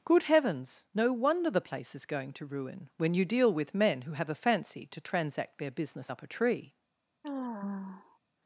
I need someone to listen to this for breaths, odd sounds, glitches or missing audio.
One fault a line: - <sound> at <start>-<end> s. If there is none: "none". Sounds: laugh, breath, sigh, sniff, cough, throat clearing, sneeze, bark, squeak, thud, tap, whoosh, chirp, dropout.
- sigh at 7.2-8.2 s